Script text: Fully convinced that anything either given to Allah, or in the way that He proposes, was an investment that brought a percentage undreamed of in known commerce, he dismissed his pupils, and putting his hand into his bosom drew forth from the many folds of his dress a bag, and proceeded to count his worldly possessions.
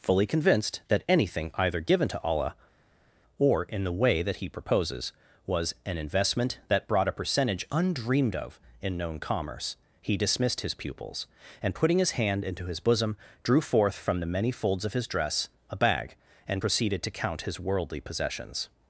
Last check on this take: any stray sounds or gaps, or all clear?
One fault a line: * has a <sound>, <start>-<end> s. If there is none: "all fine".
all fine